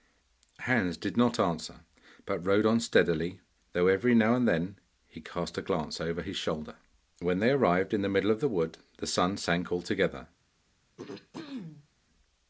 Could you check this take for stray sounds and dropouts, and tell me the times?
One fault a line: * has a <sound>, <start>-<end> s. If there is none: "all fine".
* has a throat clearing, 11.0-11.9 s